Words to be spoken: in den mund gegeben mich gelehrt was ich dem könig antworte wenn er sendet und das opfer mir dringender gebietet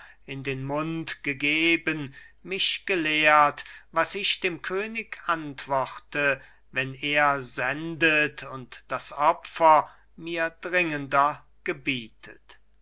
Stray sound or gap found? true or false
false